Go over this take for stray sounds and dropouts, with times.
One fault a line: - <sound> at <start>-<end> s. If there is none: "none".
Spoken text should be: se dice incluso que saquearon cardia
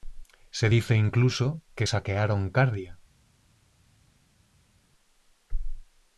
none